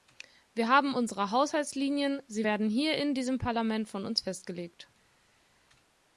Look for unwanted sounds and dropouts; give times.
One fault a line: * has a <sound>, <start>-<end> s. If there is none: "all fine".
all fine